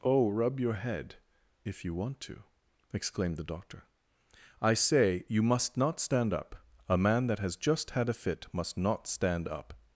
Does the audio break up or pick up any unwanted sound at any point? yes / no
no